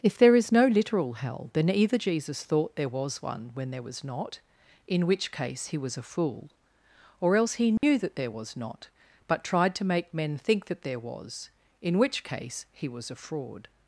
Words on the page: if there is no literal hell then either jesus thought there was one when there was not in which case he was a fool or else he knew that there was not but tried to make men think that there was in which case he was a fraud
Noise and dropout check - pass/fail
fail